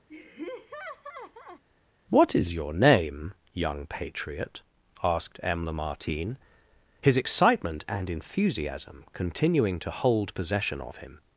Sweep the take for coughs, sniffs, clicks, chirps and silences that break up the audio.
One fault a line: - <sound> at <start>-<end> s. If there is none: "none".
- laugh at 0.1-1.6 s